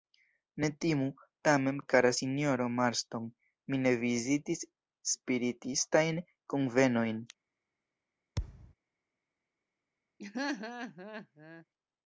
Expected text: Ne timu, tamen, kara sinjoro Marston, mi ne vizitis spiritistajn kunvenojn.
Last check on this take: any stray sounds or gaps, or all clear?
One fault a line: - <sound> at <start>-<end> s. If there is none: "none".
- thud at 8.4-8.7 s
- laugh at 10.2-11.6 s